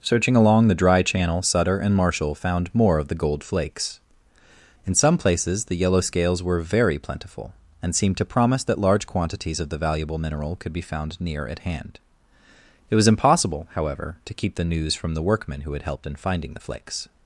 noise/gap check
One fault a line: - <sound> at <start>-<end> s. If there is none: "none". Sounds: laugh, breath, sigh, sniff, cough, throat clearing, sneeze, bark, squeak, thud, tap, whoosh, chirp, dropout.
none